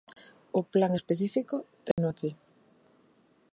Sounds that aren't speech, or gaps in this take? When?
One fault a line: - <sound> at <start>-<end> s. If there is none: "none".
- dropout at 1.9-2.0 s